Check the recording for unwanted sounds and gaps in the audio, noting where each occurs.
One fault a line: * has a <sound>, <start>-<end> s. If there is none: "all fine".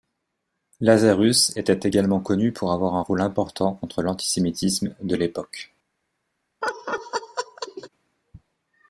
* has a laugh, 6.6-7.9 s